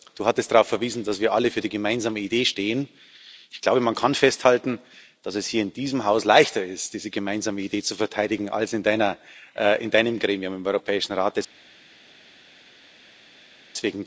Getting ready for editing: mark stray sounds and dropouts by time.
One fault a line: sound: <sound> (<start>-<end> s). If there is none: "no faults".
no faults